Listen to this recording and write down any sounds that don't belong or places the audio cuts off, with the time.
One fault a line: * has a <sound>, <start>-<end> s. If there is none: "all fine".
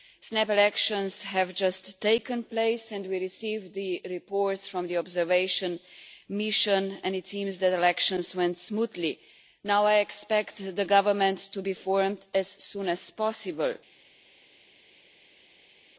all fine